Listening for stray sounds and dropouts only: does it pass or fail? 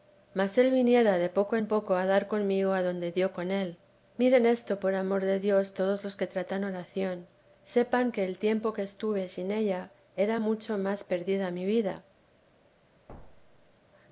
fail